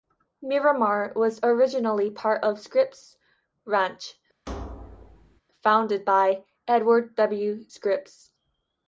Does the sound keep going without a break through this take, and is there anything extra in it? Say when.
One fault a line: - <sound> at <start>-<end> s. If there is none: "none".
- thud at 4.5-5.4 s